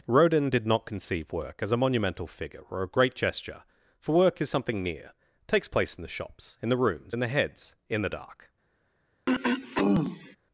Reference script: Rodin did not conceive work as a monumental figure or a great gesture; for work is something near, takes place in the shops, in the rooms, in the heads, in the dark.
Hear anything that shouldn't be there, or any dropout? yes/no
yes